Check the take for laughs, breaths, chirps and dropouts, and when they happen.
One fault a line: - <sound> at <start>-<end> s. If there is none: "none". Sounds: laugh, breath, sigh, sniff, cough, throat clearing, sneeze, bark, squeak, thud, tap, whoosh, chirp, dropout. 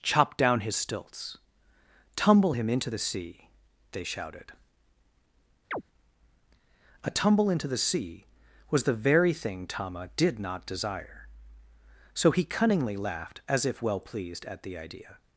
- chirp at 5.7-5.8 s